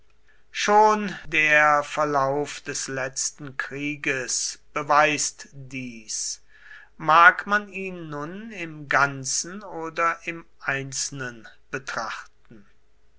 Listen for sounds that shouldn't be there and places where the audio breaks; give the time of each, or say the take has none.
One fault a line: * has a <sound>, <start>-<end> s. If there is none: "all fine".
all fine